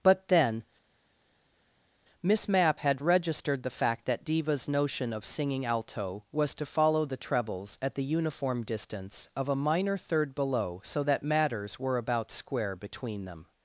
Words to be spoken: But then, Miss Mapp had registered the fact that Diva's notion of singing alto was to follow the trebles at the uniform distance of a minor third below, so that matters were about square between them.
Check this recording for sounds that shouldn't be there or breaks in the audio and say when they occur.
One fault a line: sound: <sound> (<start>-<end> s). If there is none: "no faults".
no faults